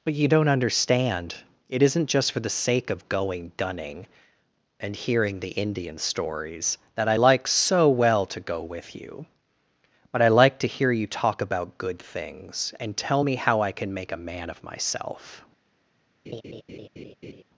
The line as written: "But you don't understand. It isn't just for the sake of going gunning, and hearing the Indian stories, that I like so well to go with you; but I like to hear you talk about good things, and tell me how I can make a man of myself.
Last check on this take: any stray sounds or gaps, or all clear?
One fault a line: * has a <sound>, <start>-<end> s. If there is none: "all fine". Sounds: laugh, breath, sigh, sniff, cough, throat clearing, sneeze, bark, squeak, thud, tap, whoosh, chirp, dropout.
* has a laugh, 16.2-17.4 s